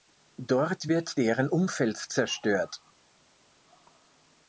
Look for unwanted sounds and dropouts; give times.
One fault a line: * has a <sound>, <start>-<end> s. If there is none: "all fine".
all fine